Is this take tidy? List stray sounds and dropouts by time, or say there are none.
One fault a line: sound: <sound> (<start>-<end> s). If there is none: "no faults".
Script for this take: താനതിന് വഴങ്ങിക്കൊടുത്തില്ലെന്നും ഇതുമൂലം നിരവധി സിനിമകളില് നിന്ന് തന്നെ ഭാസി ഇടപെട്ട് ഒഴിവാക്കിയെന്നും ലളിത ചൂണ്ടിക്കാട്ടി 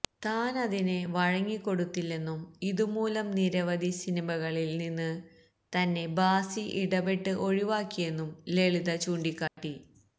sound: dropout (9.5-9.6 s)